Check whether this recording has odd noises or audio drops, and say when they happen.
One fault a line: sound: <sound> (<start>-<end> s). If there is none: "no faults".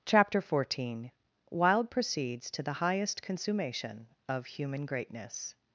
no faults